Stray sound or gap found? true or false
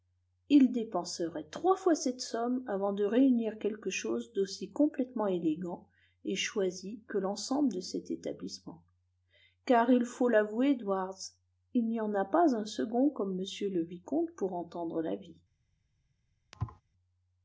true